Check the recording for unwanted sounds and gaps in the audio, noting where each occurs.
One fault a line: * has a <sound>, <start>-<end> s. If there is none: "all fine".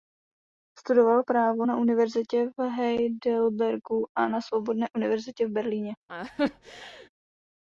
* has a laugh, 6.1-7.1 s